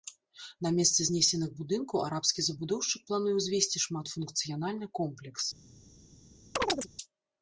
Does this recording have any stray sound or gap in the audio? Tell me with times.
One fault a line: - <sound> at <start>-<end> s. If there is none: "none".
- chirp at 6.6-6.9 s